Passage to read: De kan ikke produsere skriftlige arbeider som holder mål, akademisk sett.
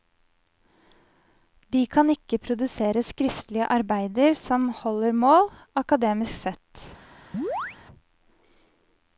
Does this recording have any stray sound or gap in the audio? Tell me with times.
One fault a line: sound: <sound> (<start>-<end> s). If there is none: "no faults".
sound: chirp (7.3-7.8 s)